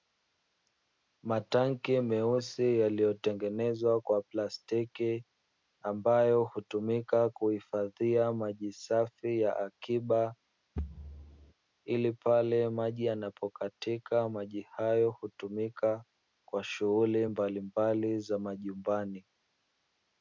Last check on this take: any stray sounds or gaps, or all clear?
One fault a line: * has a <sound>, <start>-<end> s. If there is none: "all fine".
* has a thud, 10.8-11.5 s